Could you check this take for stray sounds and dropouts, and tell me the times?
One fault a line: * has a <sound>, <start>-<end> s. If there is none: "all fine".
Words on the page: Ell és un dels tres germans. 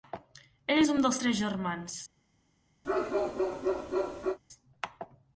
* has a bark, 2.8-4.4 s